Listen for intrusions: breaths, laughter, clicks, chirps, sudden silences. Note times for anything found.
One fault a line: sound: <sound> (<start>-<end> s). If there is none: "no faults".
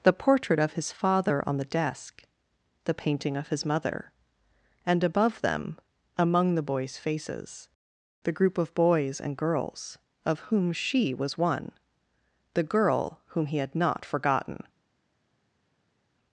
no faults